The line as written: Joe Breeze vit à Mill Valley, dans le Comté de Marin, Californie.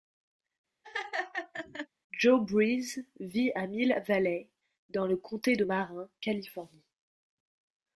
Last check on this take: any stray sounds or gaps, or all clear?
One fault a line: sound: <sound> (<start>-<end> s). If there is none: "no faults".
sound: laugh (0.8-1.9 s)